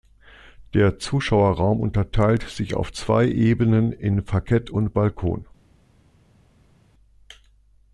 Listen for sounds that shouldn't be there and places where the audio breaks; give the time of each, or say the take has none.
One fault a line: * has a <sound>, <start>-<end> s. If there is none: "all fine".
all fine